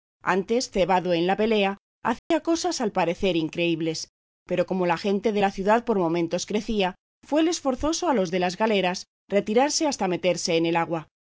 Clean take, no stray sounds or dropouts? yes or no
no